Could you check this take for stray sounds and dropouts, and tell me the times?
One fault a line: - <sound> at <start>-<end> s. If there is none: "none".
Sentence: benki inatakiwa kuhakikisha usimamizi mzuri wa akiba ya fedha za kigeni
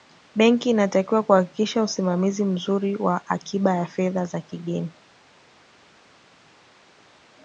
none